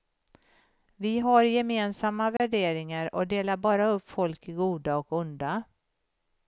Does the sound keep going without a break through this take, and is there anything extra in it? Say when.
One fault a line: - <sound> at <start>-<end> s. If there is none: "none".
- dropout at 2.4-2.4 s